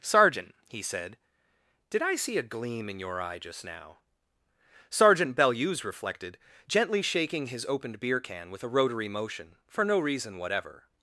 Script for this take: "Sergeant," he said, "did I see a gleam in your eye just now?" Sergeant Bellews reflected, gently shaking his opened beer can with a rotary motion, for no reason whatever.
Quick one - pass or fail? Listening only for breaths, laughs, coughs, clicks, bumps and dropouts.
pass